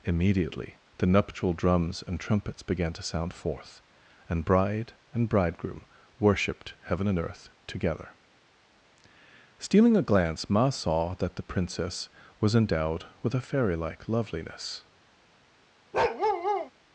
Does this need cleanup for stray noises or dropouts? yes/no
yes